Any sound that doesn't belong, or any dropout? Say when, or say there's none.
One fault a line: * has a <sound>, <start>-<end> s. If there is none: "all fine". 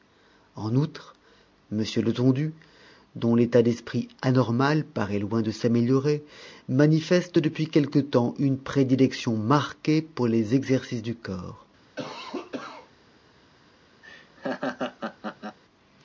* has a cough, 12.0-12.9 s
* has a laugh, 14.0-15.6 s